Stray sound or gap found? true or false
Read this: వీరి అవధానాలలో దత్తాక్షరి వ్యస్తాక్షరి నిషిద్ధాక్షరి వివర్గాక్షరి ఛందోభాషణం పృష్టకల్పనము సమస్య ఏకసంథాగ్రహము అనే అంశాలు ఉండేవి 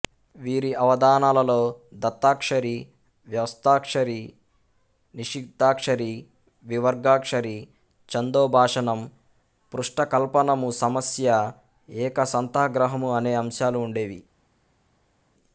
false